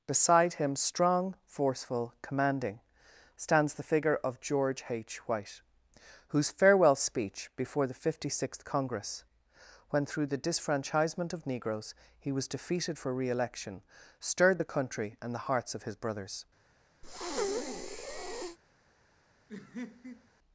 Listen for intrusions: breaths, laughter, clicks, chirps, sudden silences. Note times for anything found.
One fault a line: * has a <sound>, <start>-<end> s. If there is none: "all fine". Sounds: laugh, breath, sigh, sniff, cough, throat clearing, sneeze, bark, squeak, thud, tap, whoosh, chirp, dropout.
* has a breath, 17.0-18.6 s
* has a laugh, 19.5-20.3 s